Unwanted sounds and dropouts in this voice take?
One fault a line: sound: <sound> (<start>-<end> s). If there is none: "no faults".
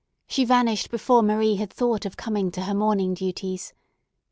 no faults